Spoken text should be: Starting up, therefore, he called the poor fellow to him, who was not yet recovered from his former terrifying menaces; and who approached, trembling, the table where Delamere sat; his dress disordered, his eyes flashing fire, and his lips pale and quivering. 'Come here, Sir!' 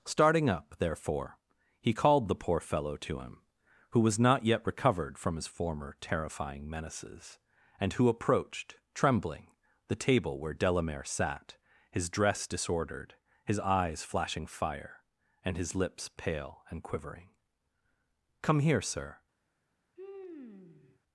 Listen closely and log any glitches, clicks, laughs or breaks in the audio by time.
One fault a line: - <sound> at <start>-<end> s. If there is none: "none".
- sigh at 20.0-21.0 s